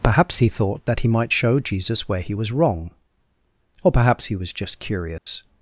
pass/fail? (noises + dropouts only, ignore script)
fail